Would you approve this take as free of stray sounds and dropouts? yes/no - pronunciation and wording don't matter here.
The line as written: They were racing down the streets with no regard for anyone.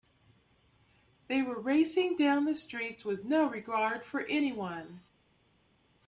yes